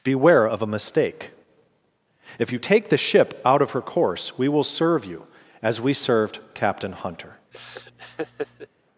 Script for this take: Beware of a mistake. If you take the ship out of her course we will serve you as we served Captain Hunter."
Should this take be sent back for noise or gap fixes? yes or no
yes